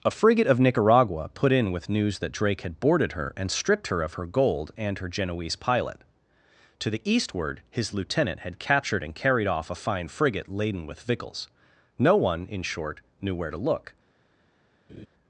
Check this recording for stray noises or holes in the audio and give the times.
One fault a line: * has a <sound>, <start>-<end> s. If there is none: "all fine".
* has a laugh, 14.9-15.1 s